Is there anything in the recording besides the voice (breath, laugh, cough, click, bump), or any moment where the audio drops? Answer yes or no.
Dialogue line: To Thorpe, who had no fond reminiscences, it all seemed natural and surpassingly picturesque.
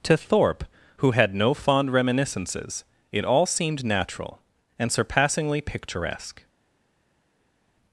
no